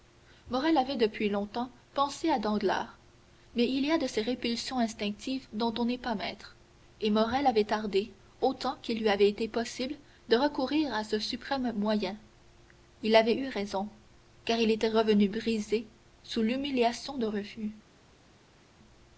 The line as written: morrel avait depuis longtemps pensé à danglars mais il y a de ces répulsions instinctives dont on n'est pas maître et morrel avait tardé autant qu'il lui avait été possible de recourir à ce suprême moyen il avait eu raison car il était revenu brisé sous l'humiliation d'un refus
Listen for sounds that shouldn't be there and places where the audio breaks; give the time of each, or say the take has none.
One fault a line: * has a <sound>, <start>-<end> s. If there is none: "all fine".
all fine